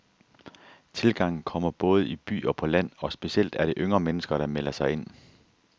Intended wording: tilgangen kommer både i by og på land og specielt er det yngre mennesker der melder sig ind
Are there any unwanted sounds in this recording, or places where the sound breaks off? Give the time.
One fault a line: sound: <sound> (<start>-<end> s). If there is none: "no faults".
no faults